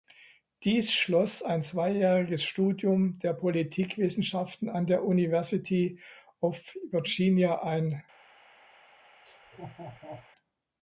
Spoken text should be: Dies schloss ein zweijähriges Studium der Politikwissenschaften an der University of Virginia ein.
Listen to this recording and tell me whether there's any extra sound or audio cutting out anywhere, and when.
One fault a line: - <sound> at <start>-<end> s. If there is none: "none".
- laugh at 9.2-10.3 s